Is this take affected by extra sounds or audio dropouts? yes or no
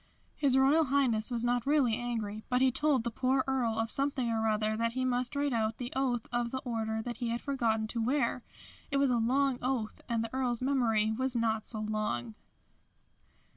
no